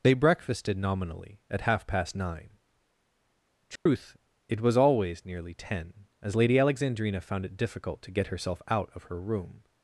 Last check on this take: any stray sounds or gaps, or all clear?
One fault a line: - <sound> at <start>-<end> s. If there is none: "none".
- dropout at 3.8-3.9 s